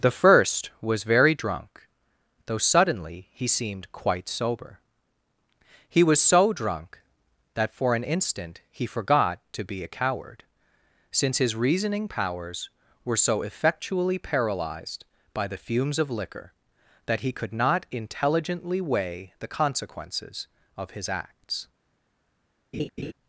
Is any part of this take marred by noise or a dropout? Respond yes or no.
yes